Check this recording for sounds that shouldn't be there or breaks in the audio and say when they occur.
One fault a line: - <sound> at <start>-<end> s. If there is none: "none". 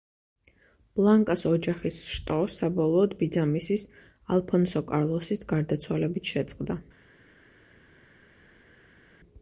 none